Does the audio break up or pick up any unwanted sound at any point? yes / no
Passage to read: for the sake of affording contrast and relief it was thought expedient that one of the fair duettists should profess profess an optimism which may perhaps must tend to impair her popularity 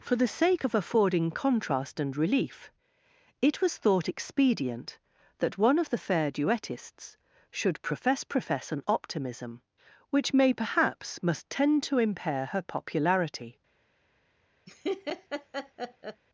yes